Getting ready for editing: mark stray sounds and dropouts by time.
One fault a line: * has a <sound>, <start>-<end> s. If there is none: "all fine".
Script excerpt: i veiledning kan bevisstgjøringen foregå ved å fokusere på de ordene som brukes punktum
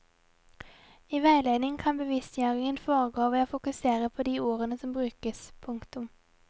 all fine